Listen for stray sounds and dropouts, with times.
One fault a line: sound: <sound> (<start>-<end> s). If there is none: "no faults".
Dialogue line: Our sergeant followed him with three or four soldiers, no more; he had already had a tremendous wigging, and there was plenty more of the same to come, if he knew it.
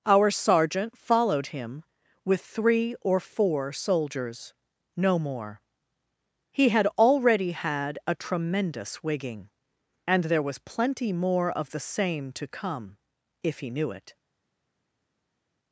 no faults